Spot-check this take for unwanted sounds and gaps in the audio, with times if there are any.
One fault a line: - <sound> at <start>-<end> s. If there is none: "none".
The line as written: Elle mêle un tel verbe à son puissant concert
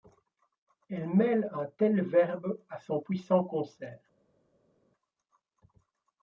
none